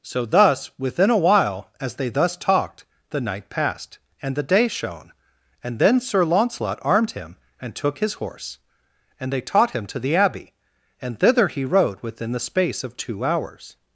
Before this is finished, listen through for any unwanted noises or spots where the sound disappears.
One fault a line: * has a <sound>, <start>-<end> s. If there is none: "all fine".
all fine